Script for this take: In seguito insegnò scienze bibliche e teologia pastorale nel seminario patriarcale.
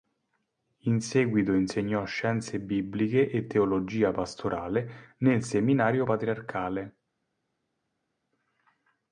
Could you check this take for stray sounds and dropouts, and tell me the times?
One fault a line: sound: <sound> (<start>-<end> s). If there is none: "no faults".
no faults